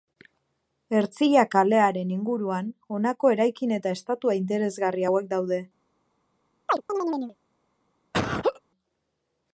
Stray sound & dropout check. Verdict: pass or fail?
fail